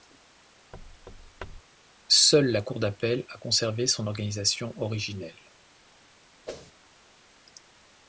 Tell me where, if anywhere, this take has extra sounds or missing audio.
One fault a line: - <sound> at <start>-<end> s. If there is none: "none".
- thud at 0.7-1.6 s
- whoosh at 6.5-6.7 s